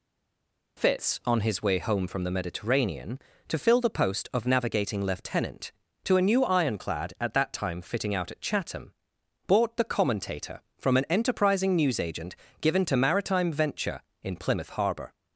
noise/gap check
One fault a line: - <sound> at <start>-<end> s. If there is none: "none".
none